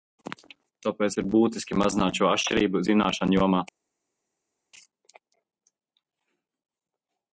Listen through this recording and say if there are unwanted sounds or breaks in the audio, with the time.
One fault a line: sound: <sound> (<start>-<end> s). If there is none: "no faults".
no faults